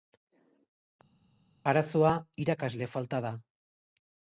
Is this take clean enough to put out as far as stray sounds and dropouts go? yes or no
yes